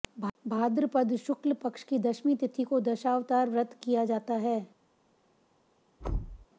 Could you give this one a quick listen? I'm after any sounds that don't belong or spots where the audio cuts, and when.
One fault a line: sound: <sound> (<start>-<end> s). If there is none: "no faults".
sound: thud (6.0-6.5 s)